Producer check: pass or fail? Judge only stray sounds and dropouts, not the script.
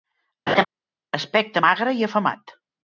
fail